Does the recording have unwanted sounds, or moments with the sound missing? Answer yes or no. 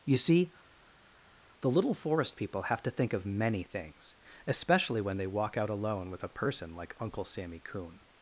no